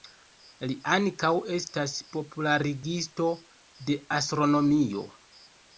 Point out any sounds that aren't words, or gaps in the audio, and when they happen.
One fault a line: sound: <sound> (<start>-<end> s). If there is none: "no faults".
no faults